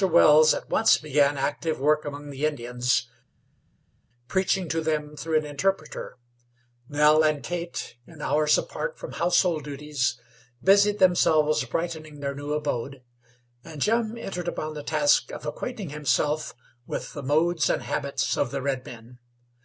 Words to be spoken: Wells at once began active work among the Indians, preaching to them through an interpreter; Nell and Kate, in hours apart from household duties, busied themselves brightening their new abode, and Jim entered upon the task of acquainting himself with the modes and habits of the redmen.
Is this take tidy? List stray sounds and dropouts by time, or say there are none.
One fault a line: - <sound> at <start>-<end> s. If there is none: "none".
none